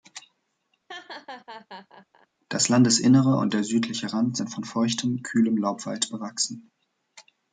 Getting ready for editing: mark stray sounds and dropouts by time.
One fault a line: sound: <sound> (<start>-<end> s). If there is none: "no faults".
sound: laugh (0.9-2.3 s)